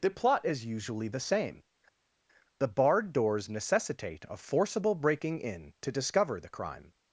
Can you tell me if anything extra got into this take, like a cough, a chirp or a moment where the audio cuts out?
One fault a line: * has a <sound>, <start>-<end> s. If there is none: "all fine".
all fine